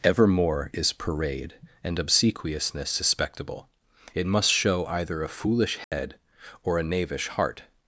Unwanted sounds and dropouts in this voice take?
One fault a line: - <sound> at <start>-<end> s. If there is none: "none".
- dropout at 5.8-5.9 s